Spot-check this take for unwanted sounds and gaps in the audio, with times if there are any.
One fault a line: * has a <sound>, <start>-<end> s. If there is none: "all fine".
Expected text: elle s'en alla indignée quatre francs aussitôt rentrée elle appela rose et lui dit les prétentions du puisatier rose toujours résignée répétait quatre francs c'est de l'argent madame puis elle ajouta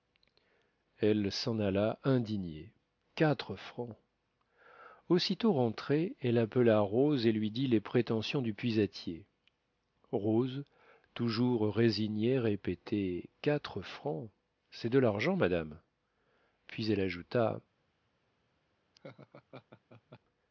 * has a laugh, 18.9-20.2 s